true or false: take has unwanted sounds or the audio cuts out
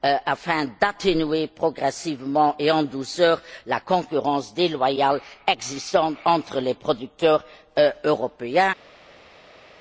false